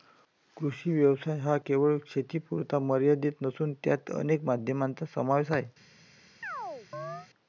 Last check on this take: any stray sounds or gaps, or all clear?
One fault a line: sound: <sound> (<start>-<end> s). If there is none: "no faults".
sound: chirp (6.4-7.3 s)